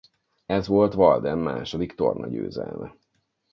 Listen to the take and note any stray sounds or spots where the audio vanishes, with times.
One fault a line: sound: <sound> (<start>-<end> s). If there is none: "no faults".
no faults